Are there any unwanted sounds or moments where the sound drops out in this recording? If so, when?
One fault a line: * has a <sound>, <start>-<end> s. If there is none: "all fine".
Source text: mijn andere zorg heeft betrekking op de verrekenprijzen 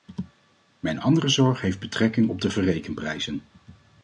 all fine